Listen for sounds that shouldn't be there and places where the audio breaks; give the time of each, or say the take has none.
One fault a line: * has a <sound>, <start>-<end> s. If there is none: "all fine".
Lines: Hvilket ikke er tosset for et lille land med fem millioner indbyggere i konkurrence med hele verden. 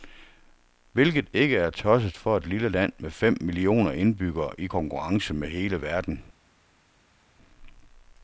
all fine